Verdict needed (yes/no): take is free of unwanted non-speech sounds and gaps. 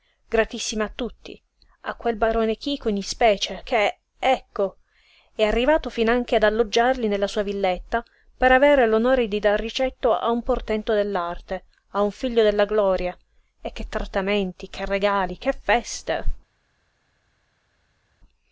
yes